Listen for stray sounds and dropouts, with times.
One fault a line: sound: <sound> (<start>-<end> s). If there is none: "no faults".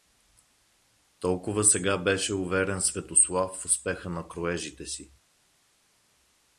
no faults